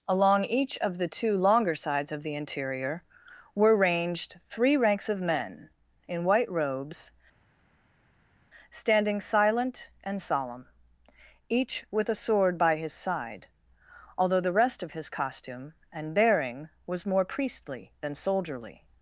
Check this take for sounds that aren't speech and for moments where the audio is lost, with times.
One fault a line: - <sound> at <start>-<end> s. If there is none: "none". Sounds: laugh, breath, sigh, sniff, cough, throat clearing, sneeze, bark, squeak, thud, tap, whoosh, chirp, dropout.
none